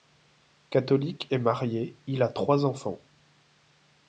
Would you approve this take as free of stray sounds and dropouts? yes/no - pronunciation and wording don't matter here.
yes